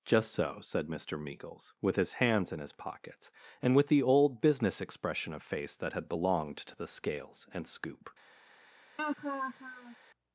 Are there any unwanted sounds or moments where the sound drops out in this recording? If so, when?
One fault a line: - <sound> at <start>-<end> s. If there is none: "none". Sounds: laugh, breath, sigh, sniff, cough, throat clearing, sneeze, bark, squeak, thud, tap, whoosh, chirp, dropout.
- laugh at 9.0-10.0 s